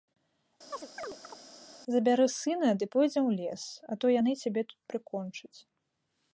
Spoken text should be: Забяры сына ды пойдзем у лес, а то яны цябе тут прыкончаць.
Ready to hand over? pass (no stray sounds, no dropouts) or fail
fail